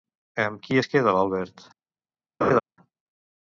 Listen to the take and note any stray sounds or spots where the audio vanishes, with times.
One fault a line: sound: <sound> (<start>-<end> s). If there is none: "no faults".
sound: laugh (2.4-2.6 s)